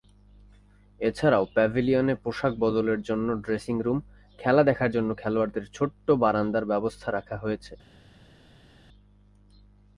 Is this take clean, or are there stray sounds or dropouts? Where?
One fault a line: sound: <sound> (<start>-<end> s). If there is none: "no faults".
no faults